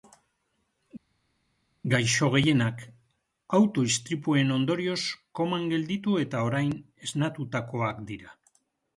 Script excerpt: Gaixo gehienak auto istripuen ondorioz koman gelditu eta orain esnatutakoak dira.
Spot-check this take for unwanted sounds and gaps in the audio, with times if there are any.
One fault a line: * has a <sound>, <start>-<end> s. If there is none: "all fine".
all fine